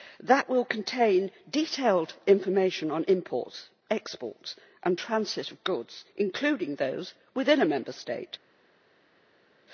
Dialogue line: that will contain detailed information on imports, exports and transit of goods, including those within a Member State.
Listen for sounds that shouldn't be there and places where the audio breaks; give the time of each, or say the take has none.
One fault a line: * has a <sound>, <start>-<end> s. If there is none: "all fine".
all fine